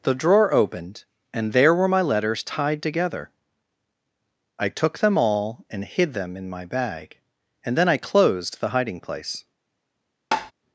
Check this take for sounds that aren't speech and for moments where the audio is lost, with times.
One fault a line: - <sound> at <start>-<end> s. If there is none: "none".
- tap at 10.3-10.5 s